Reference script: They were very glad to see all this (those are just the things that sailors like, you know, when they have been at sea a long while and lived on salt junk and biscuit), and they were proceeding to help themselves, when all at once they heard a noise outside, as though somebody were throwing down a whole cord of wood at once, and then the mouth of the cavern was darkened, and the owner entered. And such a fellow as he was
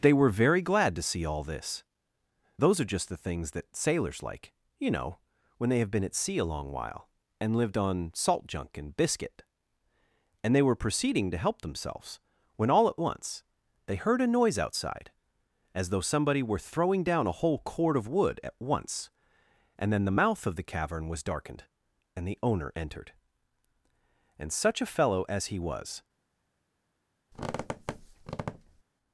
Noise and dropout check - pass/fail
fail